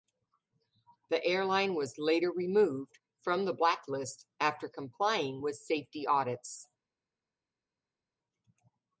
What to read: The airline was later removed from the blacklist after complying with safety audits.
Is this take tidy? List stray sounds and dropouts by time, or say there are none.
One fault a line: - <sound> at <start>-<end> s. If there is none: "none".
none